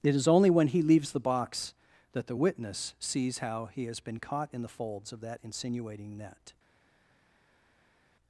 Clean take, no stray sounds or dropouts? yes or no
yes